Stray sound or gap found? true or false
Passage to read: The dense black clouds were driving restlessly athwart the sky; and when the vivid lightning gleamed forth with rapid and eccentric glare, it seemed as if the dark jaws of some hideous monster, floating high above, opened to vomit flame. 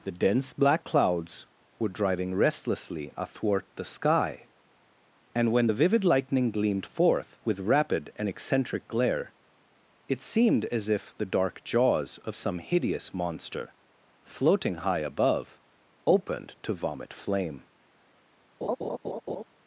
true